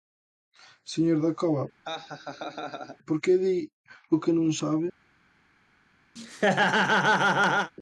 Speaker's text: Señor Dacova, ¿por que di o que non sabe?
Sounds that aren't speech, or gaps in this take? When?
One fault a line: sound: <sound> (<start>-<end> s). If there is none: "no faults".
sound: laugh (1.8-3.0 s)
sound: laugh (6.2-7.7 s)